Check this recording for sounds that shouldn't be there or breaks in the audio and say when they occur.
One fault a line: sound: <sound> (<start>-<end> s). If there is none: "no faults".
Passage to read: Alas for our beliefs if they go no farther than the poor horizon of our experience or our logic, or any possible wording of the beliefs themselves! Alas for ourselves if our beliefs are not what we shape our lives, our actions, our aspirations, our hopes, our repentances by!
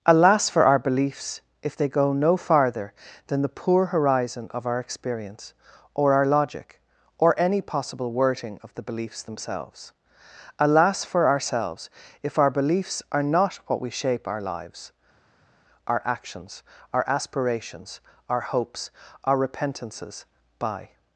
no faults